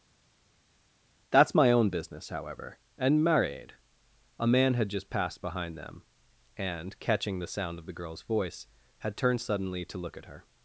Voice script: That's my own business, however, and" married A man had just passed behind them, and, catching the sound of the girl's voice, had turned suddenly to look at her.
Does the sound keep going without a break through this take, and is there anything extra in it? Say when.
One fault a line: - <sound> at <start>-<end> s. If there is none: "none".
none